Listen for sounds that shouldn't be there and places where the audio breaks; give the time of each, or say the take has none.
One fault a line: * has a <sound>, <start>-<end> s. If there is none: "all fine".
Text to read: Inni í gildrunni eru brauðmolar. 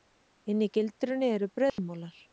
* has a dropout, 1.7-1.8 s